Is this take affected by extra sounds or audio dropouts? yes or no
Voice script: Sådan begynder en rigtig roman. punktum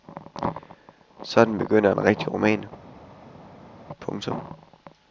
no